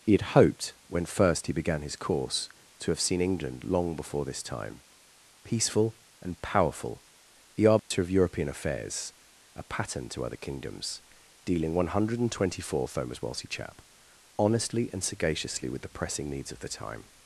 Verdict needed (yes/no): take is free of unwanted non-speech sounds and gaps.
no